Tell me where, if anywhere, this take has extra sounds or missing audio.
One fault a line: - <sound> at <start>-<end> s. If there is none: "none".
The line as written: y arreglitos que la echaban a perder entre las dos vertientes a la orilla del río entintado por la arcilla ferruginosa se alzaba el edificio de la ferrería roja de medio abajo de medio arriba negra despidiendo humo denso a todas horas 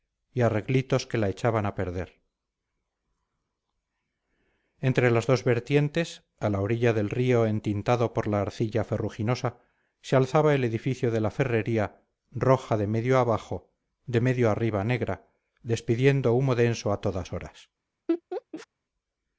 - laugh at 18.1-18.7 s